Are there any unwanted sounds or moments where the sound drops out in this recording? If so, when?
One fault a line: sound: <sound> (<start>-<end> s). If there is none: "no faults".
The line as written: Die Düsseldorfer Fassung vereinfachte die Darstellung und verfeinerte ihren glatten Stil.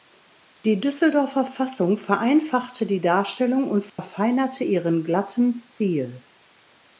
sound: dropout (3.9-4.0 s)